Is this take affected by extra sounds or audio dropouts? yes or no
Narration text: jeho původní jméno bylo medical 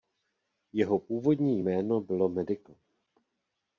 no